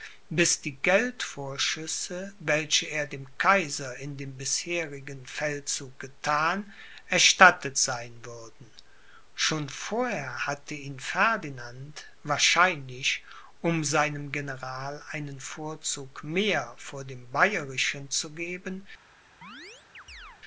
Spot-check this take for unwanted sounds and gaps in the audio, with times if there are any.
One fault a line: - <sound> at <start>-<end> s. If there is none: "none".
- chirp at 19.4-20.4 s